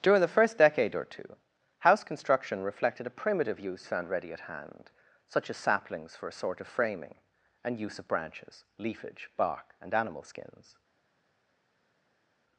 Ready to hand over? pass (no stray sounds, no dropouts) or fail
pass